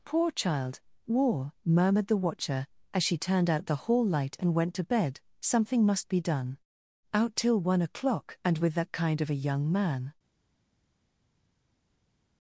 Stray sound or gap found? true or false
false